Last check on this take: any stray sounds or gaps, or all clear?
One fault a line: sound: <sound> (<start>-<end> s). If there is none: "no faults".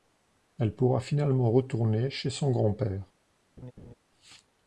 sound: laugh (3.6-3.9 s)